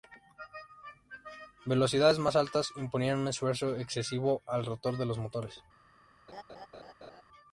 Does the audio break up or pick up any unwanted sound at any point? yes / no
yes